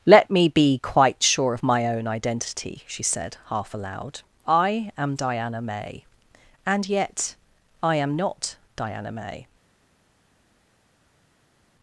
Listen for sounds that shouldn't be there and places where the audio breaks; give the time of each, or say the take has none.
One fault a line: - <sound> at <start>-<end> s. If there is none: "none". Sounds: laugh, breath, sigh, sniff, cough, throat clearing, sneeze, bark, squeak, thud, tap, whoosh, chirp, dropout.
none